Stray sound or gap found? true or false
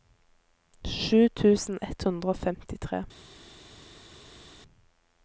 false